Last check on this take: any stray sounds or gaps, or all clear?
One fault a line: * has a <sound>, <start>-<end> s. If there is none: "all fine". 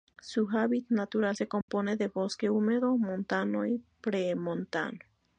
* has a dropout, 1.6-1.7 s